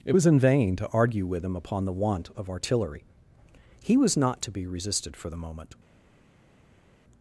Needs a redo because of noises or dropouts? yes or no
no